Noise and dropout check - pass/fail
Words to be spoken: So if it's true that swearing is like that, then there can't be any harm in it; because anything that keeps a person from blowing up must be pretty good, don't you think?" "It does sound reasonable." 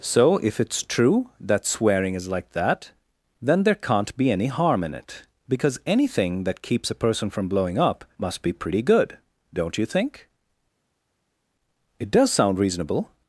pass